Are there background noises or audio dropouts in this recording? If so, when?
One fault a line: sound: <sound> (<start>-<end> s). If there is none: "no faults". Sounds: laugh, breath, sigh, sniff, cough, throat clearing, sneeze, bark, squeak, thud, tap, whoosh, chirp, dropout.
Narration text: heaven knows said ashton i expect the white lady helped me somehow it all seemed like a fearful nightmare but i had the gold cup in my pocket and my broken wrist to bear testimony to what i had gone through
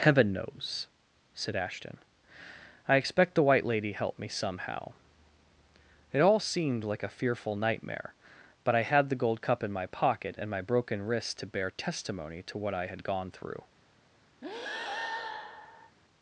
sound: breath (14.4-16.0 s)